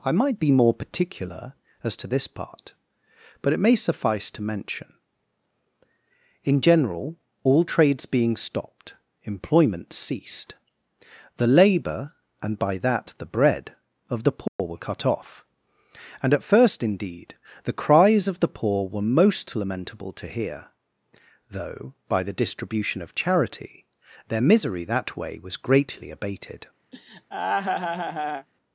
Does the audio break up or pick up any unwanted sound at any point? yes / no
yes